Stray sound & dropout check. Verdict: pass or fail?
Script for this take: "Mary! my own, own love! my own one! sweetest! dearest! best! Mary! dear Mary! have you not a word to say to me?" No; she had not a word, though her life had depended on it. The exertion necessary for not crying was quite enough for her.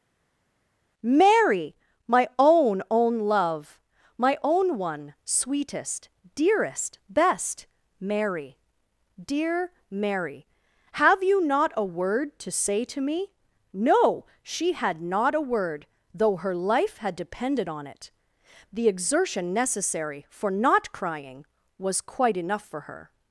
pass